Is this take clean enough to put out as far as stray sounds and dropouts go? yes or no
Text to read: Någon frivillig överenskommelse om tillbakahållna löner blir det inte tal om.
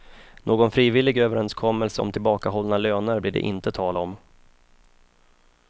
yes